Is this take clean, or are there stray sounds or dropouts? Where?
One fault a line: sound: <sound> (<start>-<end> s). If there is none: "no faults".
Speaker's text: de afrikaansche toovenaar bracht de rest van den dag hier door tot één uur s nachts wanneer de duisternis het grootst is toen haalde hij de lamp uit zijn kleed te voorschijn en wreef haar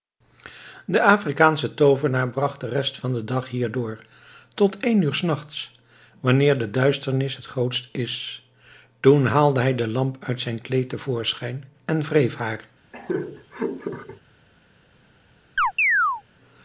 sound: laugh (12.9-14.2 s)
sound: chirp (15.6-16.2 s)